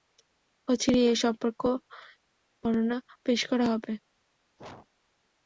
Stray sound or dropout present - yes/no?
yes